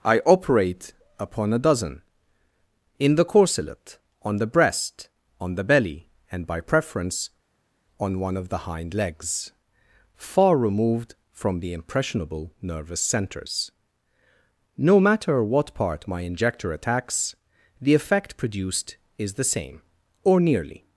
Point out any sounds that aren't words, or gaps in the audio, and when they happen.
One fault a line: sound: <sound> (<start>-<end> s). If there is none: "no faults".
no faults